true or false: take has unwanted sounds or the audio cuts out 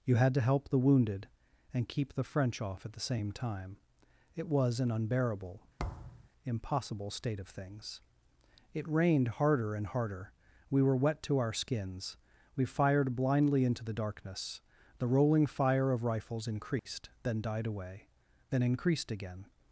true